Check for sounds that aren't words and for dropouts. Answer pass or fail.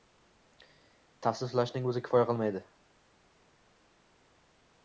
pass